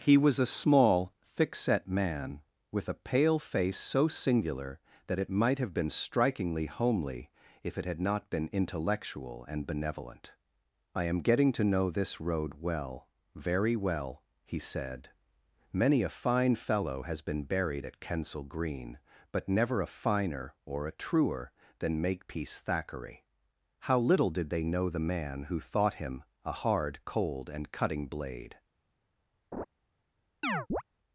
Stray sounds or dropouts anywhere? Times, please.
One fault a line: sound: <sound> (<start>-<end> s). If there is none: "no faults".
sound: laugh (29.5-29.7 s)
sound: chirp (30.4-30.8 s)